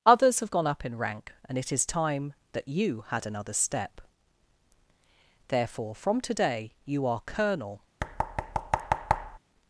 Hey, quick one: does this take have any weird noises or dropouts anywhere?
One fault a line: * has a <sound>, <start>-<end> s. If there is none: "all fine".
* has a thud, 8.0-9.4 s